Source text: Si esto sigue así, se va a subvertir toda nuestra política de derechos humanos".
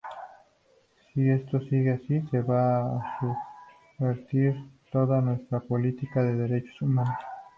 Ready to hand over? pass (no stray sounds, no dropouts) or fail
pass